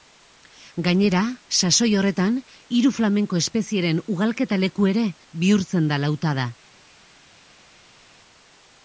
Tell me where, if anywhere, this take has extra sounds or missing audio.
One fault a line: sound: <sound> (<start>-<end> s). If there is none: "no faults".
no faults